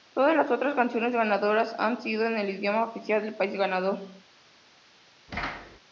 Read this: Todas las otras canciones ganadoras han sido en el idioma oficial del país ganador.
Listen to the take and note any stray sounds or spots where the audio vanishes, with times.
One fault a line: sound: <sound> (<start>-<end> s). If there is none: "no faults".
sound: thud (5.3-5.8 s)